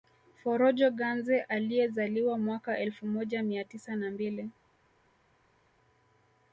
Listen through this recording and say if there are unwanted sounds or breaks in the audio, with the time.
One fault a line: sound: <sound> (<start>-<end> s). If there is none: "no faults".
no faults